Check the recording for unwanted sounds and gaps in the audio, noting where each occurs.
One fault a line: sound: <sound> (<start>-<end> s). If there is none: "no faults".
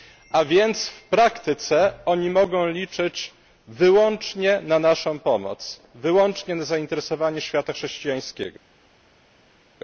no faults